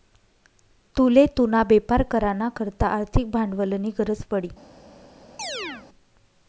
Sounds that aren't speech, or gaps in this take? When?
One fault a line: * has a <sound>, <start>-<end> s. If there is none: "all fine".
* has a chirp, 5.4-5.9 s